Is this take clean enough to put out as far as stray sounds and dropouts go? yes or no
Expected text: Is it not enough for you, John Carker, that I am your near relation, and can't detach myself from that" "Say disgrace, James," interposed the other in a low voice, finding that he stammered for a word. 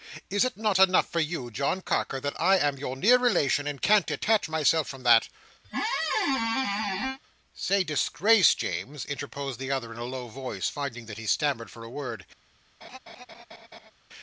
no